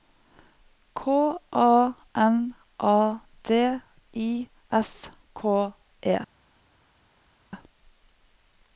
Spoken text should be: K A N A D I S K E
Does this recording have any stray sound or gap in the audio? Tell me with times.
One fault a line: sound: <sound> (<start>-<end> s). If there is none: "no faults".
no faults